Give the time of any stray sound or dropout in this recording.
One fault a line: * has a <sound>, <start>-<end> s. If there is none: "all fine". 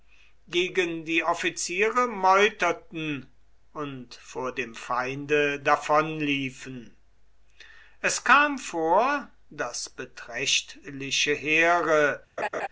* has a laugh, 12.4-12.7 s